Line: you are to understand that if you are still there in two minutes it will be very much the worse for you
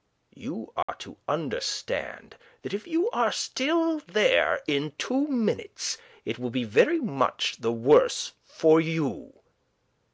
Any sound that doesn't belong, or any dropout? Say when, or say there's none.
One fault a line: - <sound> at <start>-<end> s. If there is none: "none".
- dropout at 0.8-0.9 s